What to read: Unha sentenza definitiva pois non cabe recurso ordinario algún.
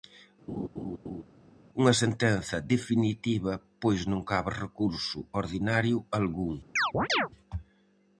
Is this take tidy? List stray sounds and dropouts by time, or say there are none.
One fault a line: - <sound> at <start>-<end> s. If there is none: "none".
- laugh at 0.5-1.2 s
- chirp at 6.8-7.3 s